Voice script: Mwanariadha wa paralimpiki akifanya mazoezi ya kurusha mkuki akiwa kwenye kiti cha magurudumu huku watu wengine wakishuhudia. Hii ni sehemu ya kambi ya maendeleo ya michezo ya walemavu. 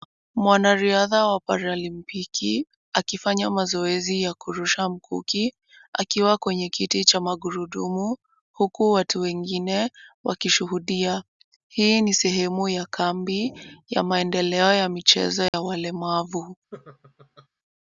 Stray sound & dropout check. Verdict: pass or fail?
fail